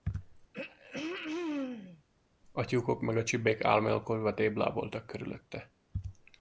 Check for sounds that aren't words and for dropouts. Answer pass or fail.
fail